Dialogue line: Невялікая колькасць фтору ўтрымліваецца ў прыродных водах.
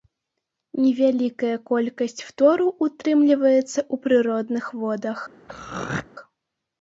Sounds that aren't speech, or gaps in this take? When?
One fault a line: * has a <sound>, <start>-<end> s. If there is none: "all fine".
* has a throat clearing, 5.5-6.1 s